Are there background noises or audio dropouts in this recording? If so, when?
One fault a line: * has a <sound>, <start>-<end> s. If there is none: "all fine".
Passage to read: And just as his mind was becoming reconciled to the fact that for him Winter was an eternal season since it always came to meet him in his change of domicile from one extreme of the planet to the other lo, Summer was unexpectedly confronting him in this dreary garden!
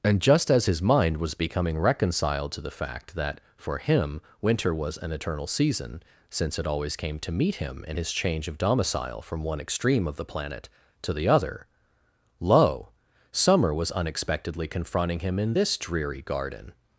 all fine